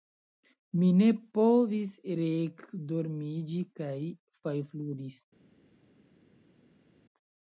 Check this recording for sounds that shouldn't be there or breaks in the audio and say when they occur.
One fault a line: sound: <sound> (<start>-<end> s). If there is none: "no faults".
no faults